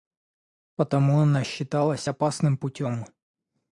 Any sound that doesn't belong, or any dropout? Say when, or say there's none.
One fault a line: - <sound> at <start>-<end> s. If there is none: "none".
none